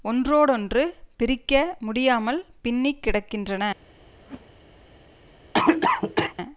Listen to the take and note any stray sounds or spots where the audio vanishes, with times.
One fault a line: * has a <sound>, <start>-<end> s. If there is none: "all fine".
* has a whoosh, 4.2-4.5 s
* has a cough, 5.5-6.3 s